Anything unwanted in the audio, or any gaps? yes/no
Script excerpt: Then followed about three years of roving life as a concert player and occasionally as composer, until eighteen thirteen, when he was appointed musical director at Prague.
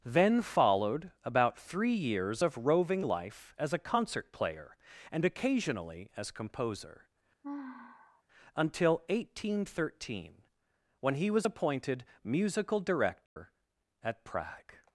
yes